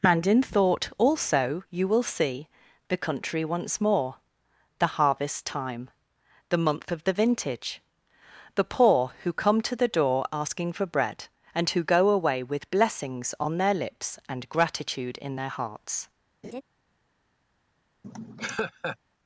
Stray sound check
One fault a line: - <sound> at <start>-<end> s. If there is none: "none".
- laugh at 16.4-16.6 s
- laugh at 18.0-19.0 s